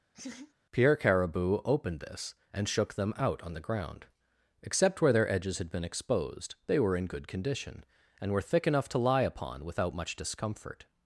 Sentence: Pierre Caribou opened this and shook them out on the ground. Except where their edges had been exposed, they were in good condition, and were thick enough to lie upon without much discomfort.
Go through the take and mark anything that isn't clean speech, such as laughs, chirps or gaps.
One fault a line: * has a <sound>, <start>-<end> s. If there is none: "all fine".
* has a laugh, 0.1-0.5 s